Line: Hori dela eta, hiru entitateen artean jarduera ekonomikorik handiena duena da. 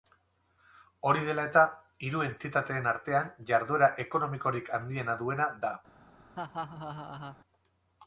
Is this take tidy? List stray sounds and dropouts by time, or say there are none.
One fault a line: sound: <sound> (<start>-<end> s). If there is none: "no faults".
sound: laugh (6.3-7.4 s)